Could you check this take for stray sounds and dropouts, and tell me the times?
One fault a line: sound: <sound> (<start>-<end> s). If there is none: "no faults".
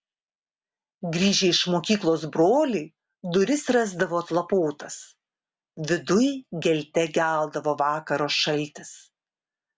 no faults